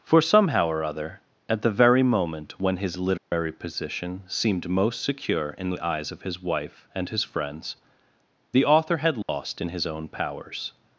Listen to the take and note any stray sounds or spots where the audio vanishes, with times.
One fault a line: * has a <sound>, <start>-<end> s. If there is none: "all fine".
* has a dropout, 3.2-3.3 s
* has a dropout, 9.2-9.3 s